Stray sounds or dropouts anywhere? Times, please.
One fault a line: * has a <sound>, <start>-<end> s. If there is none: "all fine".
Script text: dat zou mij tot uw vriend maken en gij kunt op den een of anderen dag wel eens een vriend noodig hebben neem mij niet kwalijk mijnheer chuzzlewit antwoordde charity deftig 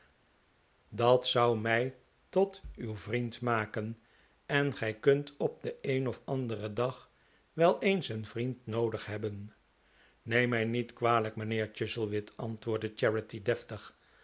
all fine